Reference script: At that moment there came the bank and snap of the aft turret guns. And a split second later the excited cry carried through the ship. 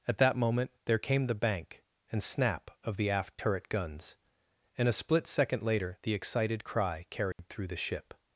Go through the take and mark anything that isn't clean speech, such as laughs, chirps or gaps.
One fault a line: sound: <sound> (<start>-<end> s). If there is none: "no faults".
sound: dropout (7.3-7.4 s)